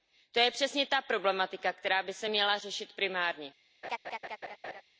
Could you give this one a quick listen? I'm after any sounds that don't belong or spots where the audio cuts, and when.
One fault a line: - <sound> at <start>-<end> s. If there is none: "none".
- laugh at 3.8-4.8 s